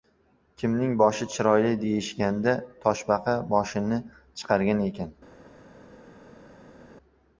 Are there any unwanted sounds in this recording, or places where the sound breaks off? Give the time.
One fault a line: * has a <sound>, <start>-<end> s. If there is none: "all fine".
all fine